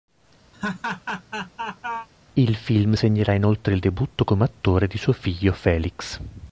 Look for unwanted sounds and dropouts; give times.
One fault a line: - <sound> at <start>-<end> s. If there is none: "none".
- laugh at 0.5-2.1 s